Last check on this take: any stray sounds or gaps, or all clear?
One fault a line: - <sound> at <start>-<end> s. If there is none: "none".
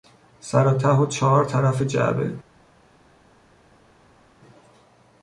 none